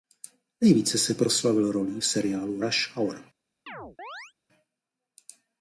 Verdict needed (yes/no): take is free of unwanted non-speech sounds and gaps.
no